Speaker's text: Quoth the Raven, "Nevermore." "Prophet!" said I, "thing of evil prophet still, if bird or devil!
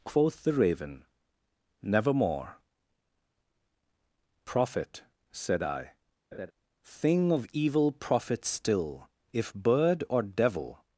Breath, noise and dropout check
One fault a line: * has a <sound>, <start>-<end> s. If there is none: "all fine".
* has a laugh, 6.3-6.5 s